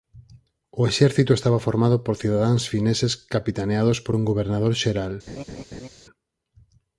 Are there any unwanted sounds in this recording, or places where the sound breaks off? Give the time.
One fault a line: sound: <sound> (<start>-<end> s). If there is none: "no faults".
sound: laugh (5.3-5.9 s)